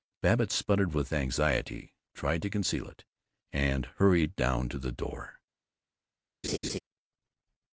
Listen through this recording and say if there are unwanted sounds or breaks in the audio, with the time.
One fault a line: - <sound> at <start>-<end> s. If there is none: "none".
- laugh at 6.4-6.8 s